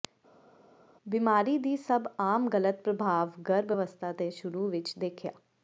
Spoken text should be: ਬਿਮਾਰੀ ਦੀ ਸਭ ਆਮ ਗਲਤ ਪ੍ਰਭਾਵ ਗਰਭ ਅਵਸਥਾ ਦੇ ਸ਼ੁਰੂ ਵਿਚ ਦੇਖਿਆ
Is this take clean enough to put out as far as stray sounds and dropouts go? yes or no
yes